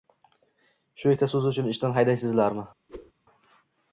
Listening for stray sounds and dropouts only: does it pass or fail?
fail